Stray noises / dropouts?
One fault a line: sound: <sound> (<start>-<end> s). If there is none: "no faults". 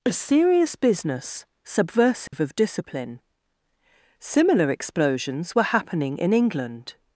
sound: dropout (2.3-2.3 s)